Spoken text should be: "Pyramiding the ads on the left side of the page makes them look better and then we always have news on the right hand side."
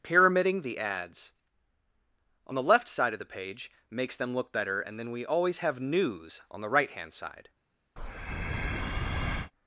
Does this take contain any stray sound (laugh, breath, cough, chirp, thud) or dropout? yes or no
yes